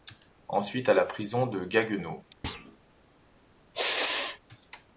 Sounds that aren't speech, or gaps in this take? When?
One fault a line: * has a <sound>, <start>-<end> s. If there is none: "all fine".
* has a thud, 2.4-2.8 s
* has a sneeze, 3.7-4.4 s